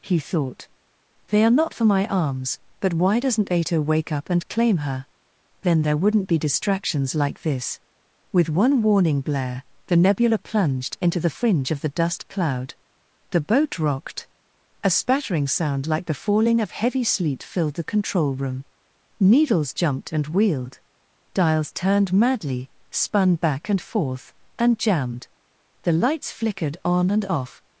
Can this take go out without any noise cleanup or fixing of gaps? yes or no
yes